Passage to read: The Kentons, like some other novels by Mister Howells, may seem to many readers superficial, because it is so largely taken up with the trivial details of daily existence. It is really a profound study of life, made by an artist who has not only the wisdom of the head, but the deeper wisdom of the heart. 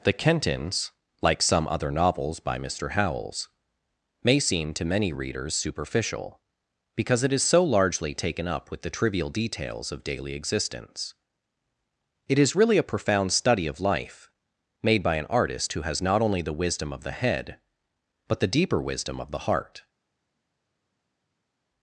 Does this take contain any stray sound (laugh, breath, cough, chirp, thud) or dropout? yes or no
no